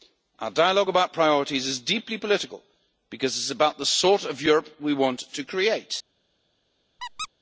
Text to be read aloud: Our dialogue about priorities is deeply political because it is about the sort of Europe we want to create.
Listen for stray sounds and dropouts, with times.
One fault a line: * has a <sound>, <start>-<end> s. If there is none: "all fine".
* has a squeak, 7.0-7.3 s